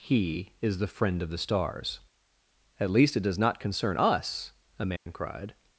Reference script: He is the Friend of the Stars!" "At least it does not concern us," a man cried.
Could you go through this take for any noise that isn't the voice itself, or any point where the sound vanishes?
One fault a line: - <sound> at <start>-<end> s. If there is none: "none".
- dropout at 5.0-5.1 s